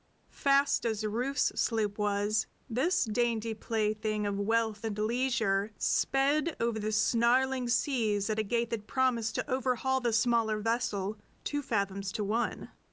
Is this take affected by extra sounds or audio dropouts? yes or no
no